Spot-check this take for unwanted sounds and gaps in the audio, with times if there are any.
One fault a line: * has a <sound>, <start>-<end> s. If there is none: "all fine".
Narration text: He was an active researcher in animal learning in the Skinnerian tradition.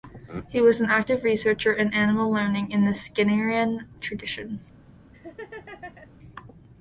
* has a laugh, 5.1-6.1 s